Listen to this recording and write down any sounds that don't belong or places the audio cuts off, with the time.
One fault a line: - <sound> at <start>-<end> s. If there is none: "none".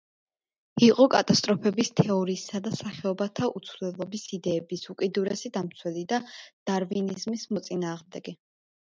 none